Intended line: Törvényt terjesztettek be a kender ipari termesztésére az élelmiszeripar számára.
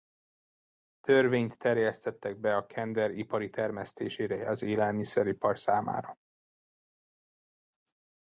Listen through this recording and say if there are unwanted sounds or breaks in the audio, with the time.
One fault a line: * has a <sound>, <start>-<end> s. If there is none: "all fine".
all fine